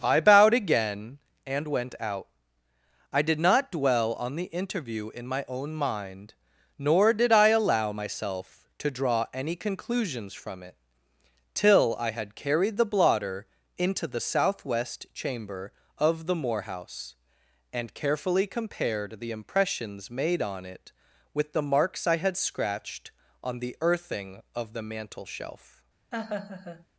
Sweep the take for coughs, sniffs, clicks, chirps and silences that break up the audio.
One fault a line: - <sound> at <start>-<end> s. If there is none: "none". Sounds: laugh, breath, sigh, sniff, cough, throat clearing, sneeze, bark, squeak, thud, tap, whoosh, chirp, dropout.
- laugh at 26.1-26.9 s